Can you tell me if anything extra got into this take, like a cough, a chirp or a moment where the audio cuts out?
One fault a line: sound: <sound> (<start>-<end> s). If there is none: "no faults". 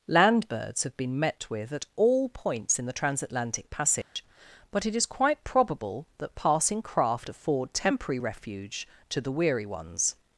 sound: dropout (4.0-4.2 s)